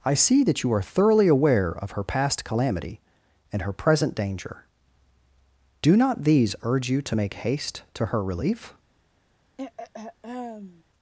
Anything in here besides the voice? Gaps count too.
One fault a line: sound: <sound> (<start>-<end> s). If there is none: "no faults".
sound: throat clearing (9.6-10.8 s)